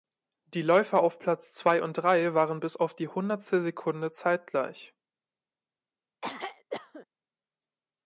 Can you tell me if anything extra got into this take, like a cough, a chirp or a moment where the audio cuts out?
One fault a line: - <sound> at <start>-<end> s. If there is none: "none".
- throat clearing at 6.2-7.1 s